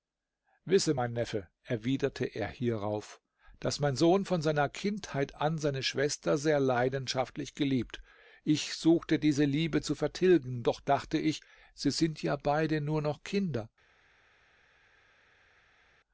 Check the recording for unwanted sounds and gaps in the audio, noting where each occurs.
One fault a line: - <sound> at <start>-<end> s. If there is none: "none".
none